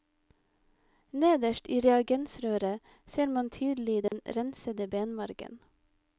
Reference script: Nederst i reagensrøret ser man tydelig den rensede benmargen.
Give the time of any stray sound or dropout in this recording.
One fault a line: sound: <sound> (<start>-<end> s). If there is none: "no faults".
sound: dropout (4.1-4.1 s)